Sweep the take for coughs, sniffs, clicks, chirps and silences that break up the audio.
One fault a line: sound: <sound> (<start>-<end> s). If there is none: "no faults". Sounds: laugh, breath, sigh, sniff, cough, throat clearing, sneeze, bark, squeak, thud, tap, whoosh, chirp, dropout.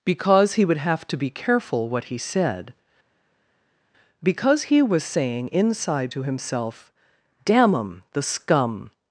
no faults